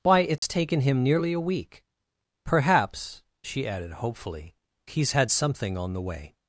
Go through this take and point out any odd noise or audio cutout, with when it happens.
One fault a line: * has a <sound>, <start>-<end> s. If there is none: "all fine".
* has a dropout, 0.4-0.4 s